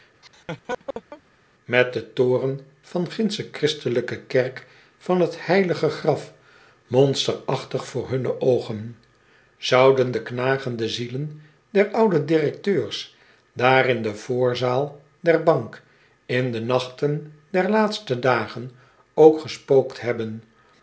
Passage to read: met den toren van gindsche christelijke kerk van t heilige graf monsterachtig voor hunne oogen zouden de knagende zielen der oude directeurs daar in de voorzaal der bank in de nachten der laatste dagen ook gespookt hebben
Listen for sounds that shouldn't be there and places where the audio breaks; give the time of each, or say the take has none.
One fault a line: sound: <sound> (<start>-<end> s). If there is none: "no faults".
sound: laugh (0.2-1.2 s)